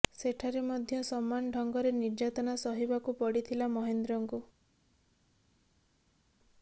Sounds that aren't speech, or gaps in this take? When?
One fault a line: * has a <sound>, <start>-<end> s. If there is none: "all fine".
all fine